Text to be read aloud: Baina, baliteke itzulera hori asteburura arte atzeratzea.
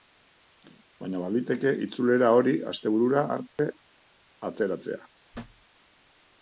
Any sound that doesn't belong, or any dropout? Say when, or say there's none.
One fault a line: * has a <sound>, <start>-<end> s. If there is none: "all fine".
* has a dropout, 3.5-3.6 s
* has a thud, 5.3-5.7 s